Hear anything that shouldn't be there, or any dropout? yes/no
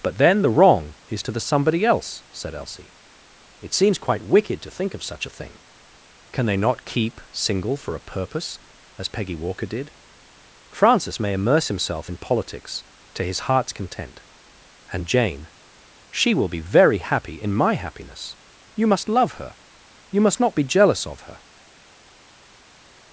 no